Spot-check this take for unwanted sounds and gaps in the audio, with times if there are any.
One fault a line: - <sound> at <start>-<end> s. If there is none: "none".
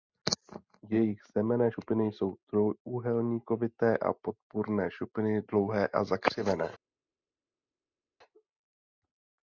none